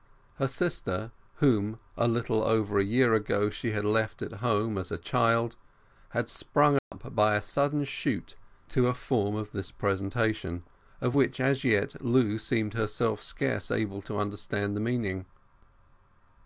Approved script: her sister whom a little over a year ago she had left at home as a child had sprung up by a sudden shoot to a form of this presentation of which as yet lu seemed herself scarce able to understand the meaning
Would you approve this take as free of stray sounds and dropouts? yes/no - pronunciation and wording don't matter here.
no